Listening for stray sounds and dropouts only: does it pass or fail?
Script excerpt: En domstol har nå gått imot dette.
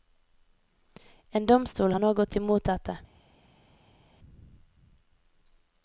pass